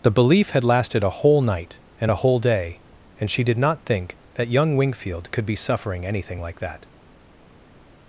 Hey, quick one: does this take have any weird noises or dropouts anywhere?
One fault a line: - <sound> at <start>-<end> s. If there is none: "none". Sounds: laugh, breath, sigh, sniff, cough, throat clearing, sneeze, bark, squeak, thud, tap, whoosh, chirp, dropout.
none